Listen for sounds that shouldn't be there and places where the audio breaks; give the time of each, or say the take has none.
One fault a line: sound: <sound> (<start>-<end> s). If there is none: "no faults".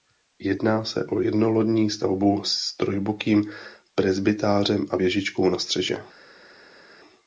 no faults